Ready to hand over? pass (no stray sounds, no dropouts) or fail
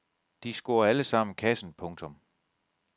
pass